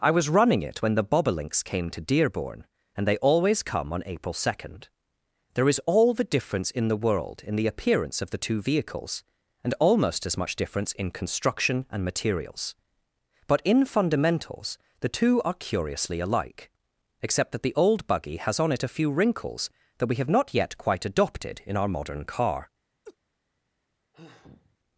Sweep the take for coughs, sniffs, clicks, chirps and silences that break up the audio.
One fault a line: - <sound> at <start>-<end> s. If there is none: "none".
- laugh at 23.0-23.2 s
- sigh at 24.1-24.8 s